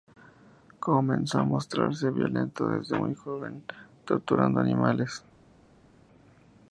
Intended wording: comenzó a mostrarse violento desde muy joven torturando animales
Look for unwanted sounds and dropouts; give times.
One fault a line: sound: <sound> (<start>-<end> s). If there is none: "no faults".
no faults